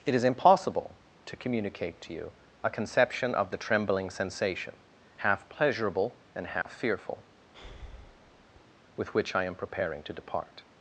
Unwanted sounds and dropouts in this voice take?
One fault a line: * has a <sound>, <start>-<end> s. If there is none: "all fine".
* has a dropout, 6.6-6.7 s
* has a breath, 7.5-8.6 s